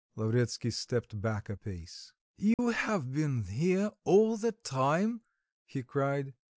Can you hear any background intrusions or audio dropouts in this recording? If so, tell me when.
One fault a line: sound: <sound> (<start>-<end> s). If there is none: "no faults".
sound: dropout (2.5-2.6 s)